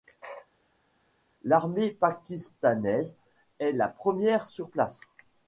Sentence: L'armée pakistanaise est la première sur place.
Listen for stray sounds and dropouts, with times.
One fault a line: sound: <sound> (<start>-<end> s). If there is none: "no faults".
no faults